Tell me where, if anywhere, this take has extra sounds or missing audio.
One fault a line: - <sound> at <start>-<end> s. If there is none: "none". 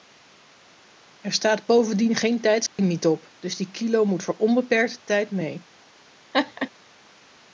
- dropout at 2.7-2.8 s
- laugh at 6.3-6.7 s